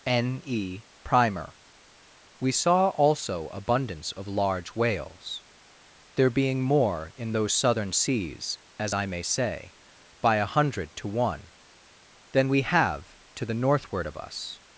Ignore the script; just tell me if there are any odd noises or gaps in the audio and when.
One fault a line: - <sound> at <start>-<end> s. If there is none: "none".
none